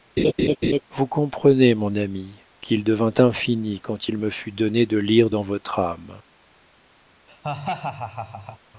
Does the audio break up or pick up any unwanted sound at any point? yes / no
yes